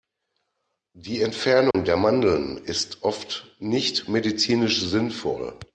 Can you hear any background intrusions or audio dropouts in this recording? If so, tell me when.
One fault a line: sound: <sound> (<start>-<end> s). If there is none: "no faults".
sound: dropout (1.7-1.7 s)